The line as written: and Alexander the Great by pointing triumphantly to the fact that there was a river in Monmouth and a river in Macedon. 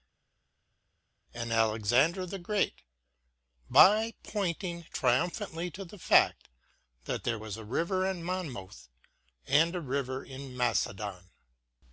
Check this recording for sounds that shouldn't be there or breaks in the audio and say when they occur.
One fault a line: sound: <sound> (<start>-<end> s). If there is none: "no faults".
no faults